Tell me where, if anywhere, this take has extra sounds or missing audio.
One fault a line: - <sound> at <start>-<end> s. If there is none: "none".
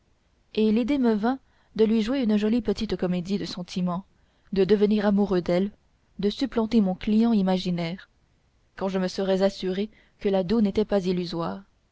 none